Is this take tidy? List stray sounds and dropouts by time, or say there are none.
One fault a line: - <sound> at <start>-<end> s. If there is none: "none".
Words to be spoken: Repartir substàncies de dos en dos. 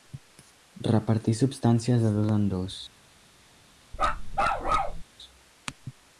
- bark at 3.9-5.0 s